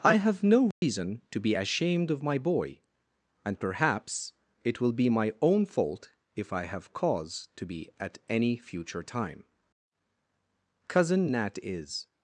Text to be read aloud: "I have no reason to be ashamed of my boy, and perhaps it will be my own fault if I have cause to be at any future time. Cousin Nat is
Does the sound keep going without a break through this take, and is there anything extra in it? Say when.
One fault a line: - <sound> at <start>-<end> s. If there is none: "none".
- dropout at 0.7-0.8 s